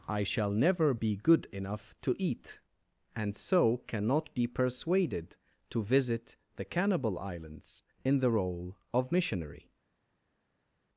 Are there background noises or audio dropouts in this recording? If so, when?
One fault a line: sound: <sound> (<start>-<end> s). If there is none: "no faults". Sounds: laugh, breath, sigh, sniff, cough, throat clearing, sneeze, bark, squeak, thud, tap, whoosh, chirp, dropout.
no faults